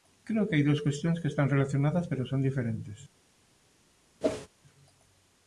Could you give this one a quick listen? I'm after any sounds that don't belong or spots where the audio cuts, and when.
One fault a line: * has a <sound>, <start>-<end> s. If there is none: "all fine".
* has a whoosh, 4.2-4.5 s